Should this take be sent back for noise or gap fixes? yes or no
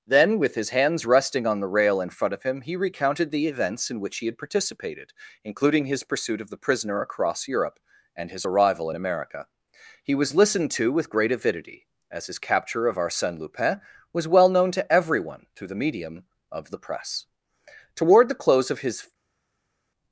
no